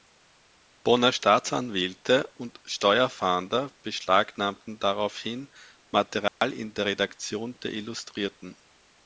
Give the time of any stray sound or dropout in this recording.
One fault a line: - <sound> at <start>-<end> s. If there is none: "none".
- dropout at 6.3-6.4 s